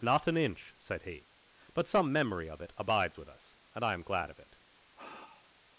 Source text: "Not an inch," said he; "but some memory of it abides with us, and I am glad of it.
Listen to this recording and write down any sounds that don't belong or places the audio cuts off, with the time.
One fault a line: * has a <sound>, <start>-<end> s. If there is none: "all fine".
* has a sigh, 5.0-5.5 s